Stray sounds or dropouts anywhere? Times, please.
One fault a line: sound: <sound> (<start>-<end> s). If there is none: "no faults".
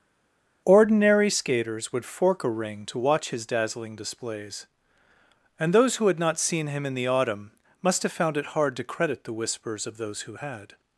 no faults